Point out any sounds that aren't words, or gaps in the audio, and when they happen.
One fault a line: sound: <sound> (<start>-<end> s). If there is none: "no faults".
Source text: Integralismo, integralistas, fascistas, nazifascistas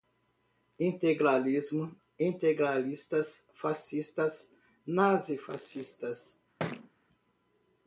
sound: thud (6.6-6.9 s)